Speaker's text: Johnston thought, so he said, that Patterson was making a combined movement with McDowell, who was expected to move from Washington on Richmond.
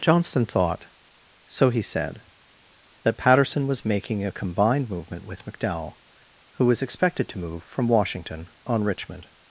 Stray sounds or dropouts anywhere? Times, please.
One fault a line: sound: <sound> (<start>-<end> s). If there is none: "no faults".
no faults